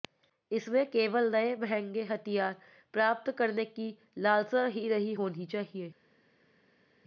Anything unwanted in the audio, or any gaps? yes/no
no